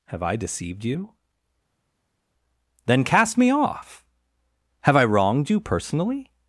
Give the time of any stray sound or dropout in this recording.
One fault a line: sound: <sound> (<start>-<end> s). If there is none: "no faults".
no faults